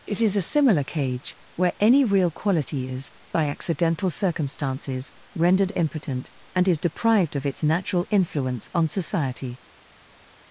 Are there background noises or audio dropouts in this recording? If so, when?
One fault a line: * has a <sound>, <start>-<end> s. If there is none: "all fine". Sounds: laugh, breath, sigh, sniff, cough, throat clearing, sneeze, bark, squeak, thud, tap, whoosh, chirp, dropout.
all fine